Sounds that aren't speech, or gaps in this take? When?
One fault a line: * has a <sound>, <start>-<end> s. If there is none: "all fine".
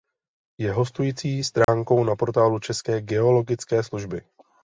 * has a dropout, 1.6-1.7 s